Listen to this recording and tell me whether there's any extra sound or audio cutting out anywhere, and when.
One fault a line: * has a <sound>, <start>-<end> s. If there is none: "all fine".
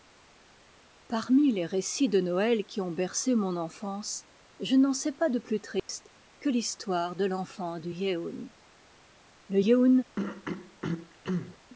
* has a dropout, 5.8-5.9 s
* has a throat clearing, 10.2-11.6 s